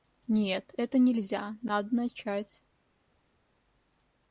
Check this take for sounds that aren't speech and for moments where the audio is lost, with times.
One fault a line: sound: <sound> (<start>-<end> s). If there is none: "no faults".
no faults